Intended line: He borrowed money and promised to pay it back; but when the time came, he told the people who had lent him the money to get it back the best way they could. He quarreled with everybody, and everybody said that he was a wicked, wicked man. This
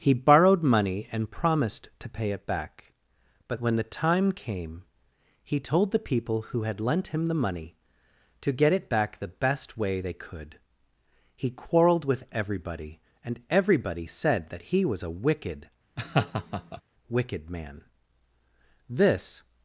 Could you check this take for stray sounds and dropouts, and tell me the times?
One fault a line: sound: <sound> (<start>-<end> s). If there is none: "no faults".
sound: laugh (16.0-16.8 s)